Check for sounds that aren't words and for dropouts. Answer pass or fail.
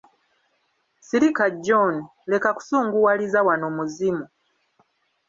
pass